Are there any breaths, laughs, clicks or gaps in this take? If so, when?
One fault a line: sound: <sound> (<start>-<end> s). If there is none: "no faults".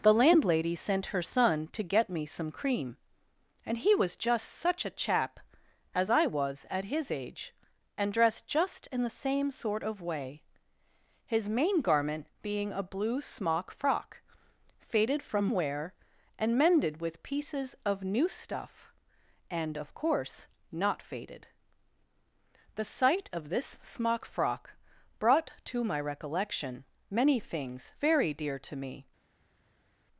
no faults